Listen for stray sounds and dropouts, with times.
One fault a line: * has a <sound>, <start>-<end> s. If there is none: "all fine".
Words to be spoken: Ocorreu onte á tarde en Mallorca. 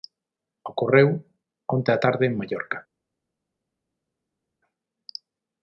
all fine